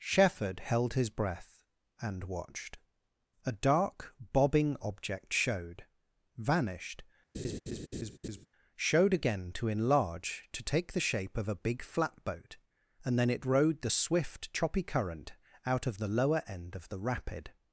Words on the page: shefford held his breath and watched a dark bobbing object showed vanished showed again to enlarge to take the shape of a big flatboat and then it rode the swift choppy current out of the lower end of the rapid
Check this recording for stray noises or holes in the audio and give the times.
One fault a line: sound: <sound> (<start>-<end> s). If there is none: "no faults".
sound: laugh (7.3-8.5 s)